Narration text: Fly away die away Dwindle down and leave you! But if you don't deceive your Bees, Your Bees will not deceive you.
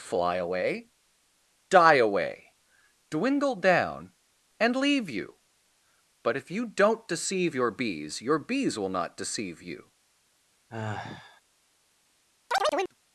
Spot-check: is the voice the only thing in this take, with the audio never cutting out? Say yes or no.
no